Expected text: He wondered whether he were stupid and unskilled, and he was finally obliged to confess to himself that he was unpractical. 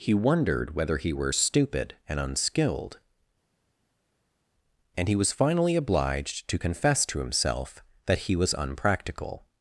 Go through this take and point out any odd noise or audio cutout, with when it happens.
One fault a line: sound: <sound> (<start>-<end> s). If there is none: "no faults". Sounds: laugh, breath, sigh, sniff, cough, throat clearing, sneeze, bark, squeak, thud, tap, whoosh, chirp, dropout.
no faults